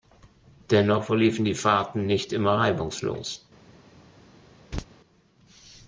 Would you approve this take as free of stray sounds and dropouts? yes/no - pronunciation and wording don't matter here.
no